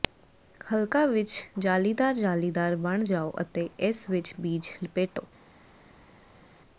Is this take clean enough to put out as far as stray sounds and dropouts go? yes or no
yes